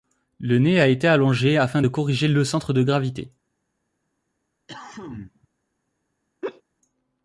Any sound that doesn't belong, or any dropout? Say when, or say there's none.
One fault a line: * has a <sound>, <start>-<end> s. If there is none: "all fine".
* has a cough, 4.7-5.5 s
* has a laugh, 6.4-6.6 s